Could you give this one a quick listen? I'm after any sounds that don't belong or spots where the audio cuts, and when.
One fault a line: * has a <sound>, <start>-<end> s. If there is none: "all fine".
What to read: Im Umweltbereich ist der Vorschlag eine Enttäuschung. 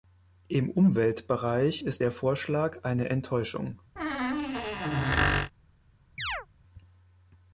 * has a squeak, 4.0-5.5 s
* has a chirp, 6.2-6.5 s